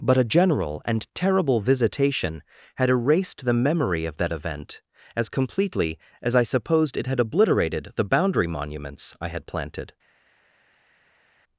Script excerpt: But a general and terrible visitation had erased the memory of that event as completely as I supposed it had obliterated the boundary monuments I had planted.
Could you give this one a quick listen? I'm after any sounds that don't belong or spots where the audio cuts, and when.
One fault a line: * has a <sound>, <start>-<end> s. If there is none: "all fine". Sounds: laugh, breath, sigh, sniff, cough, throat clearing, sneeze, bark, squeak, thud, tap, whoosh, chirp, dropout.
all fine